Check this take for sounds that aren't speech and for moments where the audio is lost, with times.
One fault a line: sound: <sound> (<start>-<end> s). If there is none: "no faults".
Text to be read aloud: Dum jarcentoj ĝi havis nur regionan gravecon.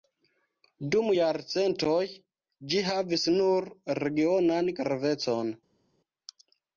no faults